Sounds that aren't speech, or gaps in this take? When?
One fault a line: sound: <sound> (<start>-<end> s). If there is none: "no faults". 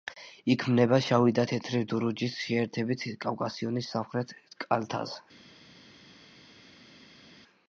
no faults